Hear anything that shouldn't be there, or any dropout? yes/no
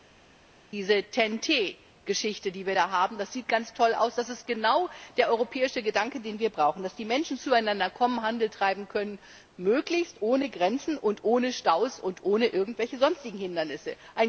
no